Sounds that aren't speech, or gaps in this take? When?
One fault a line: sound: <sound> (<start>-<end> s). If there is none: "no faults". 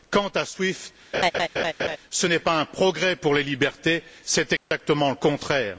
sound: laugh (1.1-2.0 s)
sound: dropout (4.6-4.7 s)